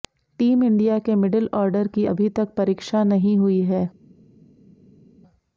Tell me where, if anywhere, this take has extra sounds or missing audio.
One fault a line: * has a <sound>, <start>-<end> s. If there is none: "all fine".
all fine